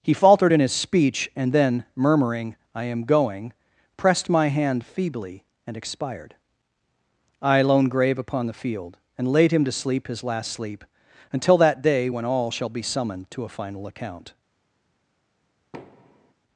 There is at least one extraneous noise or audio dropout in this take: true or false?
true